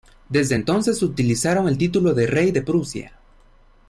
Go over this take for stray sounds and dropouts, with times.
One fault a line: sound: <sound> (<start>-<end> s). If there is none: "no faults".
no faults